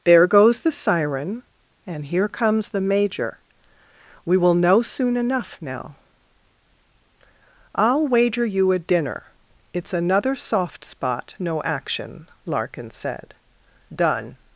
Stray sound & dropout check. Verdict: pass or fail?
pass